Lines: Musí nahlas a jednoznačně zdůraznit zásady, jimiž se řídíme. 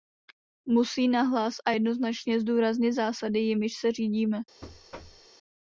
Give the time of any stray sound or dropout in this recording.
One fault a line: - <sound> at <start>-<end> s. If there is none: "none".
- thud at 4.6-5.3 s